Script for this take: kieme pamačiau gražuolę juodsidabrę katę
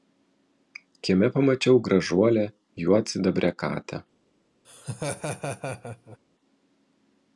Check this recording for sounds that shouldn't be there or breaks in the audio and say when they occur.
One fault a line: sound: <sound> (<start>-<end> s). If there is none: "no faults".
sound: laugh (4.6-6.2 s)